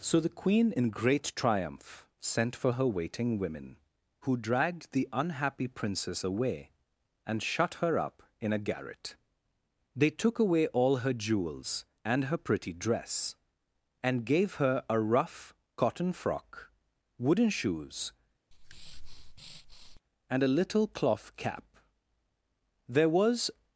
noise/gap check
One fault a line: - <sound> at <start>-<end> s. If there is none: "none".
- breath at 18.5-20.0 s